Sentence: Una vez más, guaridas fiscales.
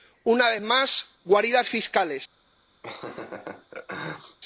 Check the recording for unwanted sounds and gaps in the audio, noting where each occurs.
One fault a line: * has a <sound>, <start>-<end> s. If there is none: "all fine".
* has a laugh, 2.8-4.4 s